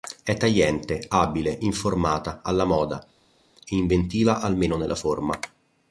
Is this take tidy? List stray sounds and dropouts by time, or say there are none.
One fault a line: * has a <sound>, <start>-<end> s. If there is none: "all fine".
all fine